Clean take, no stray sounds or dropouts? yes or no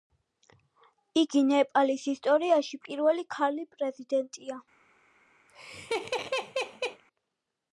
no